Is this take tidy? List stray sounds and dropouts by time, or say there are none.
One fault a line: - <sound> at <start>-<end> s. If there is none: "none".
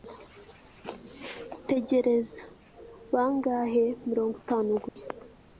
- dropout at 4.9-5.0 s